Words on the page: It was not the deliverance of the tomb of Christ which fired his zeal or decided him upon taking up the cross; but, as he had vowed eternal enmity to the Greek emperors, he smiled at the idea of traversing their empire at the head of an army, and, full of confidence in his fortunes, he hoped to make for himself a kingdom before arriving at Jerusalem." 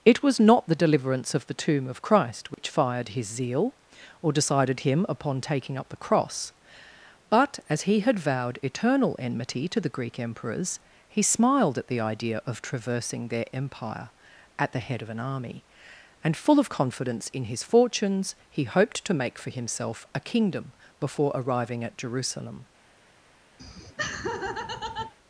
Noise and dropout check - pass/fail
fail